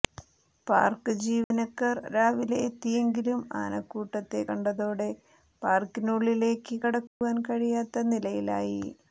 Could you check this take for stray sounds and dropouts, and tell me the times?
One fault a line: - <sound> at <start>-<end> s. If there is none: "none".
- dropout at 1.4-1.5 s
- dropout at 7.1-7.2 s